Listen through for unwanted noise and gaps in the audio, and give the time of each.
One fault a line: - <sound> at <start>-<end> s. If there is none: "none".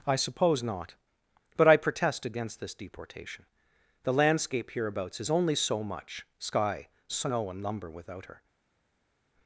none